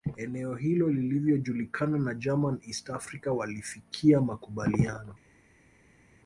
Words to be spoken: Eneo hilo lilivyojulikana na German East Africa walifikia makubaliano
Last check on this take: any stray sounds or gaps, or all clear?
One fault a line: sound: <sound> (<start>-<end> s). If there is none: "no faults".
no faults